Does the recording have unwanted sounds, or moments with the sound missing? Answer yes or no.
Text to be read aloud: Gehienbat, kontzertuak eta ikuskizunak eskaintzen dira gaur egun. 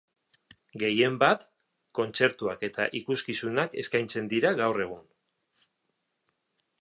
no